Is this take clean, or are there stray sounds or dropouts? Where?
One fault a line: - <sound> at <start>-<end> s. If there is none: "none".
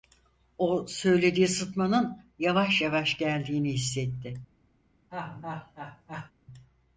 - laugh at 5.1-6.3 s